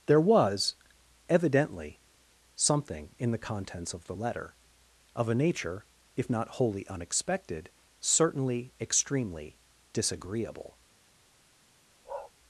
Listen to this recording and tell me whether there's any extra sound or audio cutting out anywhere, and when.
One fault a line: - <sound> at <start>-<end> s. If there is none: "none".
- bark at 12.0-12.3 s